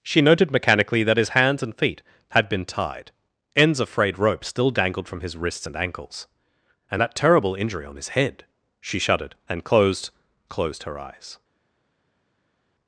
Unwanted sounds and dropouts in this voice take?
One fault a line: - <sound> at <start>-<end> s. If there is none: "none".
none